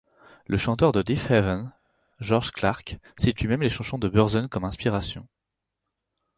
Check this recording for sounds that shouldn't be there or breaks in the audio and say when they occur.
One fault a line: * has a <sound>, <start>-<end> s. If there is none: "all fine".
all fine